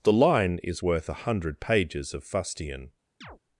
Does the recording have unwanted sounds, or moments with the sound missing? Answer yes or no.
yes